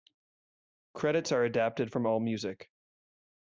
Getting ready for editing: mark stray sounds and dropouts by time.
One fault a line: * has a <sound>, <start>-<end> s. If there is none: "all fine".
all fine